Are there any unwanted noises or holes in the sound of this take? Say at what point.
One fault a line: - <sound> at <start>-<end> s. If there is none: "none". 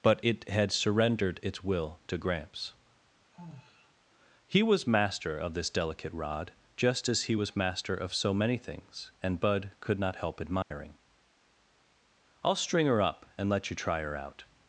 - sigh at 3.3-3.9 s
- dropout at 10.6-10.7 s